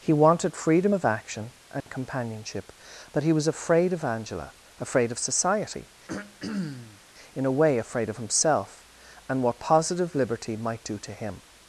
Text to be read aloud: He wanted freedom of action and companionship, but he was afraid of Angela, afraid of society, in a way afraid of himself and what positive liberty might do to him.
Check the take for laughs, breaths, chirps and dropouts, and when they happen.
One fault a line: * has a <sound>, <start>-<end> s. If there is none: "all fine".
* has a dropout, 1.8-1.9 s
* has a throat clearing, 6.1-7.0 s